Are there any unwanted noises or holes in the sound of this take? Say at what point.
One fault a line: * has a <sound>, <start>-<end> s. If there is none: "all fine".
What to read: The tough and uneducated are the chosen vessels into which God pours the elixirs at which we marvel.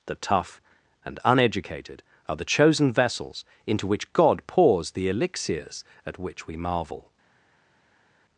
all fine